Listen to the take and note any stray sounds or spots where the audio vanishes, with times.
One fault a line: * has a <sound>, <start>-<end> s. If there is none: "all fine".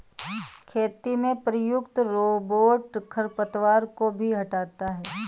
all fine